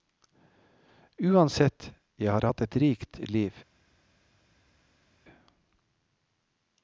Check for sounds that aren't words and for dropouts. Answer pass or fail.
pass